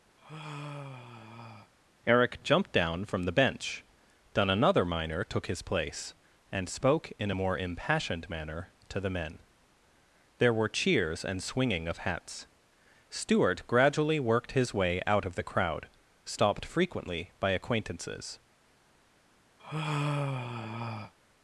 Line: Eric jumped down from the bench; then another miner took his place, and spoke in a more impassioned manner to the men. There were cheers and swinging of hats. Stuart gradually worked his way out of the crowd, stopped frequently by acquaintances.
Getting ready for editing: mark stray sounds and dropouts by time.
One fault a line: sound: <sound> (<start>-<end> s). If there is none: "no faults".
sound: sigh (0.2-1.7 s)
sound: sigh (19.6-21.1 s)